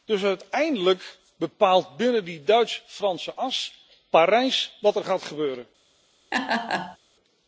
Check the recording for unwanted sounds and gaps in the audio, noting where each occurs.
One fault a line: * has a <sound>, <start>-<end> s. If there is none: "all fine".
* has a laugh, 6.3-7.0 s